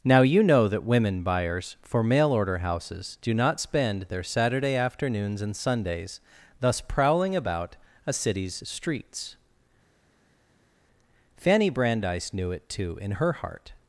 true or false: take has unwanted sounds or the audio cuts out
false